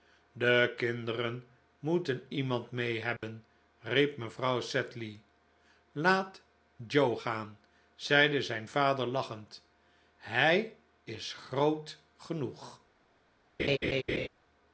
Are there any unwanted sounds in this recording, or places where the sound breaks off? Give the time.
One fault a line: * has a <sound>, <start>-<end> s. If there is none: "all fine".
* has a dropout, 3.2-3.2 s
* has a laugh, 13.6-14.3 s